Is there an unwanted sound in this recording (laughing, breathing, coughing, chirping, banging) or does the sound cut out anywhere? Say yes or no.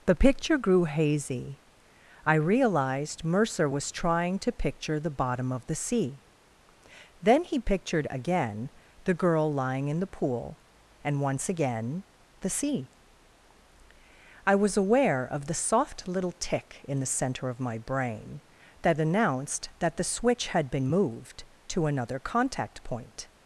no